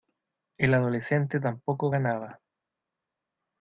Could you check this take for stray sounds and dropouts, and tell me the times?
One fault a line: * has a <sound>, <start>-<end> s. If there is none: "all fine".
all fine